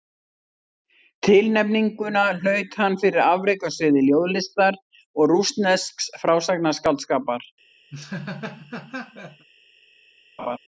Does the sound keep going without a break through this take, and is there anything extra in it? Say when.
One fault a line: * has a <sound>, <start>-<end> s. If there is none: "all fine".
* has a laugh, 7.9-9.5 s
* has a laugh, 10.4-10.6 s